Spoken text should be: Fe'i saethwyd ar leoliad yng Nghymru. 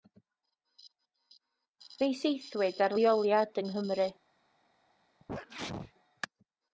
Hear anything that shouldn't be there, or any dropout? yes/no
yes